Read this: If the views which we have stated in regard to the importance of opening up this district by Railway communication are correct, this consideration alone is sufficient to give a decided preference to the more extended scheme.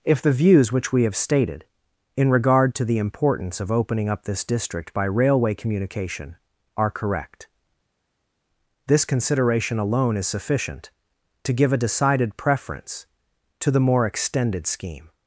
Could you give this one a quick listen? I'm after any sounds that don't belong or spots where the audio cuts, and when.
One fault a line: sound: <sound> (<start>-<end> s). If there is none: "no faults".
no faults